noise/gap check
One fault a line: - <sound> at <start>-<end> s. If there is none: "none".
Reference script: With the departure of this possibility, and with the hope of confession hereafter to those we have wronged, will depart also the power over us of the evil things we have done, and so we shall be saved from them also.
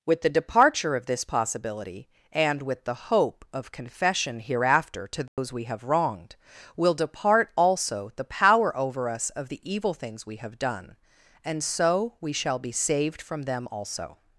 - dropout at 5.3-5.4 s